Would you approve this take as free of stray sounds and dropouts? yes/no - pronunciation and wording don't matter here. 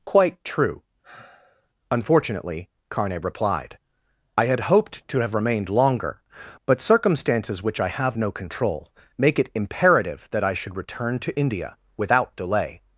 no